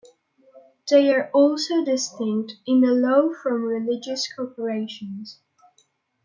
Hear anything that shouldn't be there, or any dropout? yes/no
no